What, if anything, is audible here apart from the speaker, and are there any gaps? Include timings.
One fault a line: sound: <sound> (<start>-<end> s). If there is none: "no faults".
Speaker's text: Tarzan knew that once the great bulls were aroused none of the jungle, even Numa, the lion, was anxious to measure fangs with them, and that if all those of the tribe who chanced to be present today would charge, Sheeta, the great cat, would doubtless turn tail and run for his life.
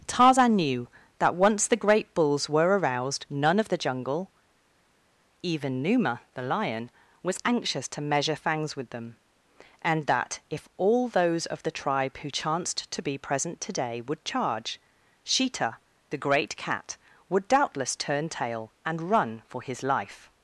no faults